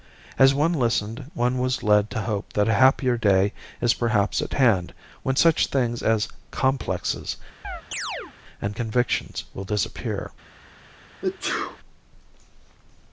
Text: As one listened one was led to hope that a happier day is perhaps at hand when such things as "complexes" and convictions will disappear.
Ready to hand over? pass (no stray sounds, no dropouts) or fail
fail